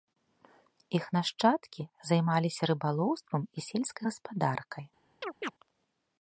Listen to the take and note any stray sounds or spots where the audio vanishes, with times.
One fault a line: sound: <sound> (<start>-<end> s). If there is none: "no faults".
sound: chirp (5.2-5.5 s)